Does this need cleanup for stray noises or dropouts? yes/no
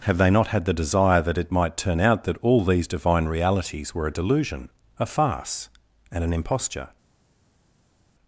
no